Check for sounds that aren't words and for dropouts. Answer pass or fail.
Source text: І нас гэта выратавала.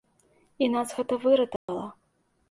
fail